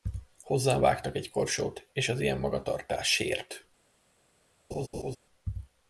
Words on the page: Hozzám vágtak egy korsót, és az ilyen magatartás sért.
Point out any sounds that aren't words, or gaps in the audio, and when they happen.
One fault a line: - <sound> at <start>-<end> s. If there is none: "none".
- laugh at 4.7-5.2 s